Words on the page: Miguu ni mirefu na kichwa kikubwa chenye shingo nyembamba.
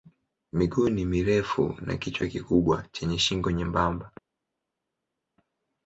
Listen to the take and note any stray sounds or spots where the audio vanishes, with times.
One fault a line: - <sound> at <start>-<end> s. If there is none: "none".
none